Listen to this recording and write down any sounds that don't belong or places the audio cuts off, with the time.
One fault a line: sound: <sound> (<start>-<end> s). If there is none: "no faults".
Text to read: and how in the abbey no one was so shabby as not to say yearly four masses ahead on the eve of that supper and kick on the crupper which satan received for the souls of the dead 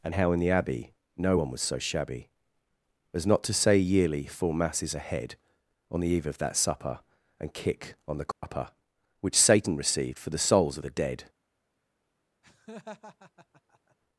sound: dropout (8.3-8.4 s)
sound: laugh (12.4-14.0 s)